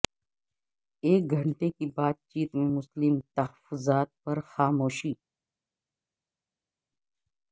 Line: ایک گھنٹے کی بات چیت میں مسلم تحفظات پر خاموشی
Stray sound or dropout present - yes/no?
no